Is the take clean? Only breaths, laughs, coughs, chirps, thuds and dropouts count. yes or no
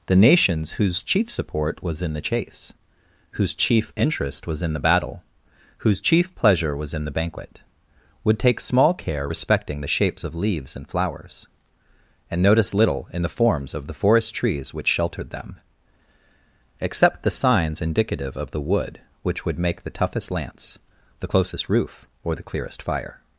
yes